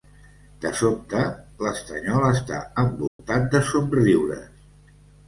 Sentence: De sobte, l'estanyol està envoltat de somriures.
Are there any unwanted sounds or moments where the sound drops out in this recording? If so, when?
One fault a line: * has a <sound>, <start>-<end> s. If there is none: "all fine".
* has a dropout, 3.1-3.2 s